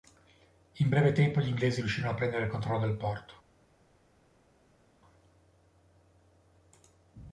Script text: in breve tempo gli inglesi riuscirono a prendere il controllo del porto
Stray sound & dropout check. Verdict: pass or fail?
pass